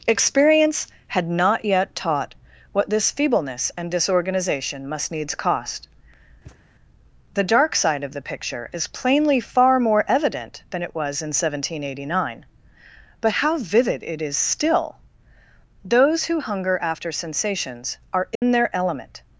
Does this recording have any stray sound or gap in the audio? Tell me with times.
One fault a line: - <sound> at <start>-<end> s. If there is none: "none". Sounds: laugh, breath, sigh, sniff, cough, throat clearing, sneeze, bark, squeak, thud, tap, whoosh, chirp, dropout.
- thud at 6.5-6.6 s
- dropout at 18.4-18.4 s